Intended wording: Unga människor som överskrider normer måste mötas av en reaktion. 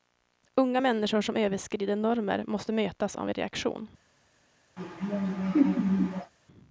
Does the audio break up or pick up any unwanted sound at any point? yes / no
yes